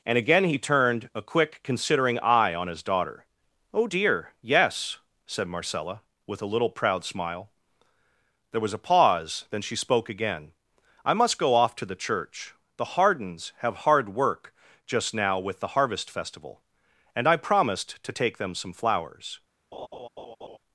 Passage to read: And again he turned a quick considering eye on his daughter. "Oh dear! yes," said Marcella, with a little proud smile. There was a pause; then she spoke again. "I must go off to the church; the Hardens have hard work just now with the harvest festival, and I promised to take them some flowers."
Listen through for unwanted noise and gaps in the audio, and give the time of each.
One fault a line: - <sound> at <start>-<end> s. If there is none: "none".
- laugh at 19.7-20.6 s